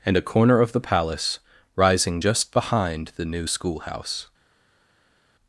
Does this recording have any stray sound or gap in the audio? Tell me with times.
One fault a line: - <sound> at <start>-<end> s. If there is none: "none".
none